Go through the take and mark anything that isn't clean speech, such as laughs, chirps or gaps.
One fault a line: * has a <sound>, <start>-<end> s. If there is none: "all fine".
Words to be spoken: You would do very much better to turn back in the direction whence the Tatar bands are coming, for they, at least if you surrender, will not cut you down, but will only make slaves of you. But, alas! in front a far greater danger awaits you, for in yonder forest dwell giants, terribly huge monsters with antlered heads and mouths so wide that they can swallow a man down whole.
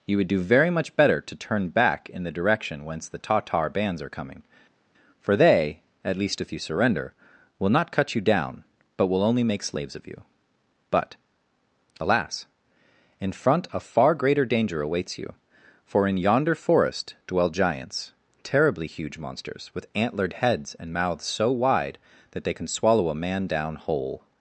all fine